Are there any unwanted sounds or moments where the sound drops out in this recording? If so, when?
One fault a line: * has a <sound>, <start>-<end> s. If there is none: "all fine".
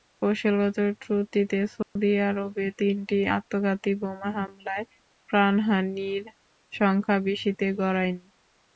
* has a dropout, 1.8-2.0 s